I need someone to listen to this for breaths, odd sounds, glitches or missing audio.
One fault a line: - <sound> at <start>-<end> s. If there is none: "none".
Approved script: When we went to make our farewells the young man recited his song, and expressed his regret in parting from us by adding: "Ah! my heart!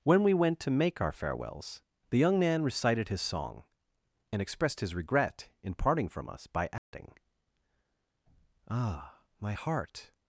- dropout at 6.8-6.9 s